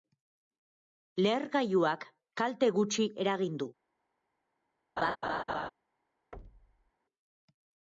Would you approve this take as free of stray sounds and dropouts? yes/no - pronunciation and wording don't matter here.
no